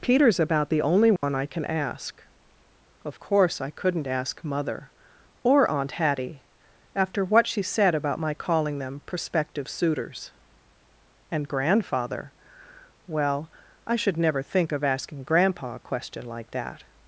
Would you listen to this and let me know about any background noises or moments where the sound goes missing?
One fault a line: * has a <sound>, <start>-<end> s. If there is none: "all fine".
* has a dropout, 1.2-1.2 s